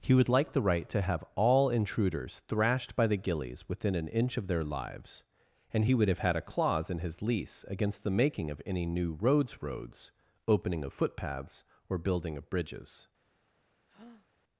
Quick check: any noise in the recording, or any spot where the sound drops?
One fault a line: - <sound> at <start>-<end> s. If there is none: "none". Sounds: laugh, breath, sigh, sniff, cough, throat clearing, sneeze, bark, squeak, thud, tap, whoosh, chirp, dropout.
- breath at 13.9-14.3 s